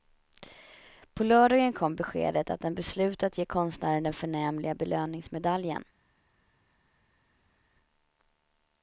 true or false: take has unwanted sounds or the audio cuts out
false